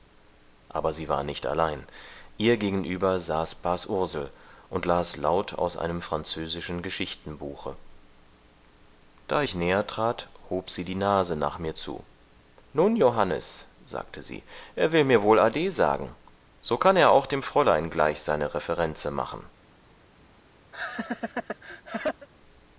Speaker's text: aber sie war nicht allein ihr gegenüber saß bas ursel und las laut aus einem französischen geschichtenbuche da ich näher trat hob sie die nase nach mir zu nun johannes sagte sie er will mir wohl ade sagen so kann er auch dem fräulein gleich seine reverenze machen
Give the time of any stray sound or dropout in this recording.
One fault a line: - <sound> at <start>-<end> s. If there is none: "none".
- laugh at 20.7-22.3 s